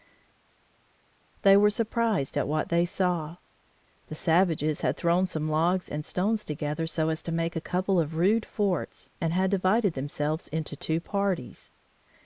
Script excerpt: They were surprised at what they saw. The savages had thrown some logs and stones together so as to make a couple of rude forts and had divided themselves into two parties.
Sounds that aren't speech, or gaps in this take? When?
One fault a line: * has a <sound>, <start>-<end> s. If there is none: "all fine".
all fine